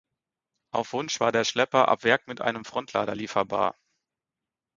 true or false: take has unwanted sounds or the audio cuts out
false